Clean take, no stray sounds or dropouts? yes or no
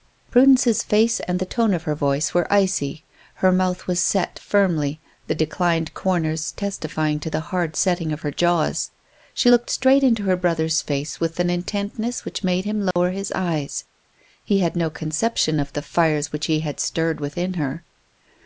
no